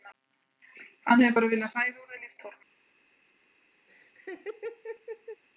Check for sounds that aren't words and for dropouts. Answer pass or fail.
fail